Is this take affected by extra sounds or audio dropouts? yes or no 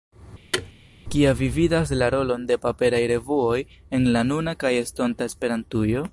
yes